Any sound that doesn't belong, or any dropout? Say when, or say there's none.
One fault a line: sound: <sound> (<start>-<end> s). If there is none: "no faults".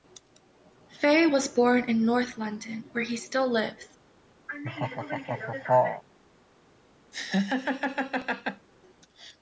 sound: laugh (4.5-6.0 s)
sound: laugh (7.1-8.7 s)